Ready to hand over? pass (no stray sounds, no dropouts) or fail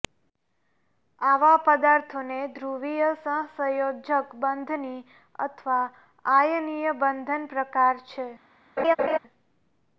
fail